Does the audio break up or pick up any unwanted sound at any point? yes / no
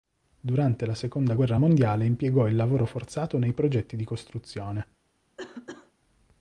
yes